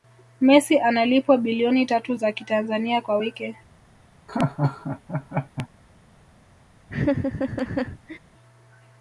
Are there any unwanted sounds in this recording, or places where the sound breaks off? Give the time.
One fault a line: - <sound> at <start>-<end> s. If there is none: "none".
- laugh at 4.3-5.7 s
- laugh at 6.9-8.2 s